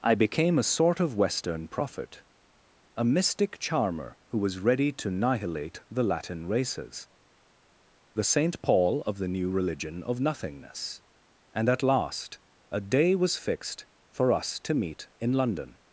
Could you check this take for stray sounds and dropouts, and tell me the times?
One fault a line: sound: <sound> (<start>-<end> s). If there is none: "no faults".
no faults